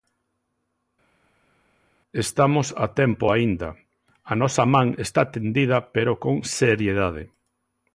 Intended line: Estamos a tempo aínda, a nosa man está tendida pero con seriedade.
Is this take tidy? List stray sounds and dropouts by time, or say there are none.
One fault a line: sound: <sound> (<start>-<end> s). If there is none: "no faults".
no faults